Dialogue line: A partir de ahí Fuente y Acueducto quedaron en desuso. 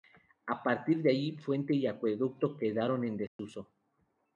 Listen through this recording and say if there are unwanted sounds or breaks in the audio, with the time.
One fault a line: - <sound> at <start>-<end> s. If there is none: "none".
- dropout at 3.3-3.4 s